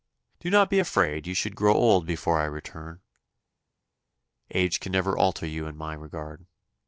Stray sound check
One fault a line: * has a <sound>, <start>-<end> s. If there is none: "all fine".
all fine